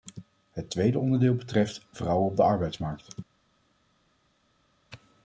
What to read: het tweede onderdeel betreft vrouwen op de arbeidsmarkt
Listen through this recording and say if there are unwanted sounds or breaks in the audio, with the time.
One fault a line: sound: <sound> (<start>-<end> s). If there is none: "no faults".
no faults